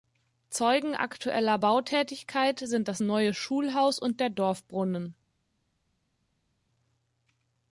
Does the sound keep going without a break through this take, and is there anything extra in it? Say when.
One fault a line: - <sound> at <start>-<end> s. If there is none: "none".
none